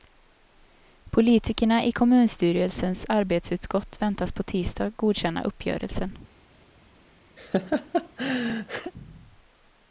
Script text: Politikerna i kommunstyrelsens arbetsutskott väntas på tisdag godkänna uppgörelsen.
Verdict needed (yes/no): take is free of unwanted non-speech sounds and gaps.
no